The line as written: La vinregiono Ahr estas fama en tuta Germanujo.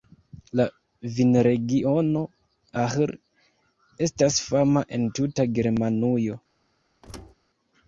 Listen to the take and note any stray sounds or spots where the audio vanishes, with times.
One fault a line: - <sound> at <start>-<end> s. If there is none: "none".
- thud at 7.0-7.3 s